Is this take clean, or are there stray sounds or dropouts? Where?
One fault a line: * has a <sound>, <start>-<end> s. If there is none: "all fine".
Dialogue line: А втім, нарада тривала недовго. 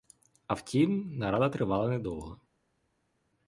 all fine